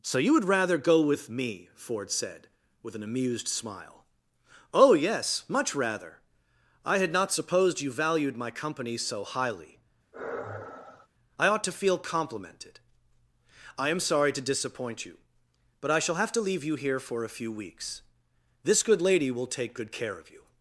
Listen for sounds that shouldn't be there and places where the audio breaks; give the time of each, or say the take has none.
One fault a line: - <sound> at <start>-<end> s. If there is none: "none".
- sigh at 10.1-11.1 s